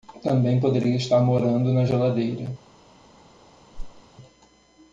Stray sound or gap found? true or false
true